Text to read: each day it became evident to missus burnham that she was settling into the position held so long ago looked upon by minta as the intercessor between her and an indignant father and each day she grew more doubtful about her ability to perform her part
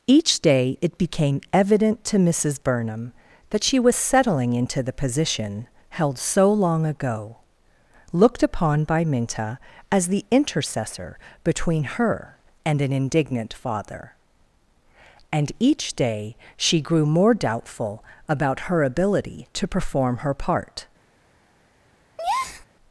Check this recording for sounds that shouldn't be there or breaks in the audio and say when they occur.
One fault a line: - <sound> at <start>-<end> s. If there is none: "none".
- breath at 22.2-22.7 s